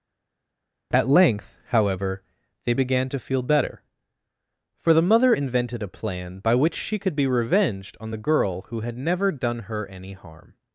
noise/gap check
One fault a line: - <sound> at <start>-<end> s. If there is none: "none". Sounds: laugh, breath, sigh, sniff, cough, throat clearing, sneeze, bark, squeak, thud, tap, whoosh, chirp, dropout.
none